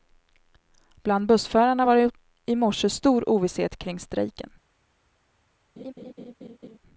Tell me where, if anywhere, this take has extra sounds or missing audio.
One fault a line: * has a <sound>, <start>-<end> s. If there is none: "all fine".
* has a laugh, 5.8-6.8 s